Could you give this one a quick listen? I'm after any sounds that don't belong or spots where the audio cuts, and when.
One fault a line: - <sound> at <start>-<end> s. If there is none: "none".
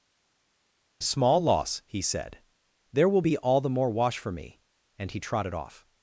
none